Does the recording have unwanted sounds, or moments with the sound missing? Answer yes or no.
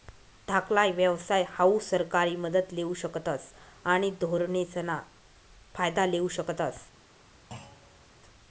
yes